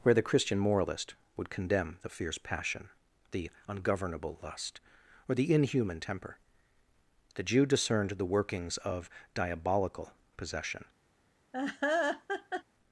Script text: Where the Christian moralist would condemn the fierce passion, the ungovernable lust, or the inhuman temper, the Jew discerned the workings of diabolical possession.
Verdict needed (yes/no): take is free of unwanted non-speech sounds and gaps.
no